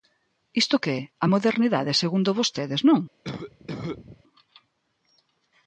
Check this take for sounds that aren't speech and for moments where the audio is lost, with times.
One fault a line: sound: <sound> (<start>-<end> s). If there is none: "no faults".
sound: cough (3.2-4.2 s)